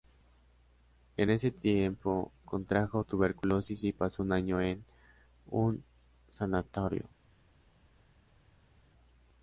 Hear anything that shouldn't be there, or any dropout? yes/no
no